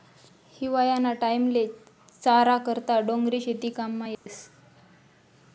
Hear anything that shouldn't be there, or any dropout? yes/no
yes